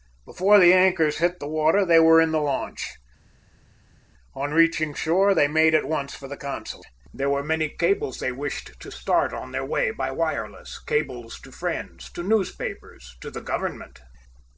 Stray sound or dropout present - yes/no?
no